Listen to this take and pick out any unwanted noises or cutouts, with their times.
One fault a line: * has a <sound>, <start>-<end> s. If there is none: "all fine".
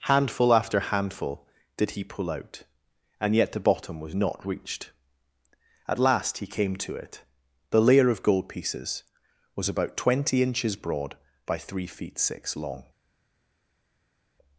all fine